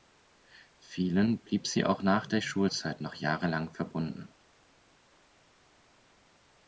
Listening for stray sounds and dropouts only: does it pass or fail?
pass